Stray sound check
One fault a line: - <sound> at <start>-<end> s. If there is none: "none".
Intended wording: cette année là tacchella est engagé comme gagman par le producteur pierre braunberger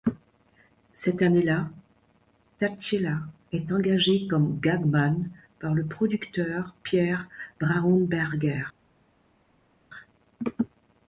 none